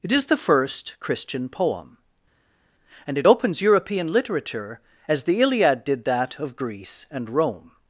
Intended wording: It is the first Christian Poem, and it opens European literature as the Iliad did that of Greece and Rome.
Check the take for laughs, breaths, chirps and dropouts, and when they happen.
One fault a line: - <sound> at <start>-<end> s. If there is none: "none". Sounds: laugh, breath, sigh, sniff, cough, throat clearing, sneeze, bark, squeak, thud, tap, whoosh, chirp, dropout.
none